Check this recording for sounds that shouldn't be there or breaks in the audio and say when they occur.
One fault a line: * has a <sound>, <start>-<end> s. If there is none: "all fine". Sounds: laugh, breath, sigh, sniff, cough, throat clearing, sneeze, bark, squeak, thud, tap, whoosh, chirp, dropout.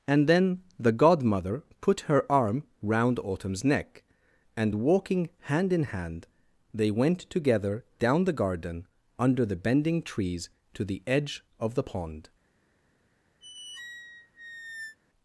* has a squeak, 13.4-15.0 s